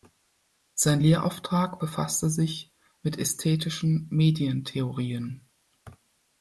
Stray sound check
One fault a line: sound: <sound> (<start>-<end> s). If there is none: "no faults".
no faults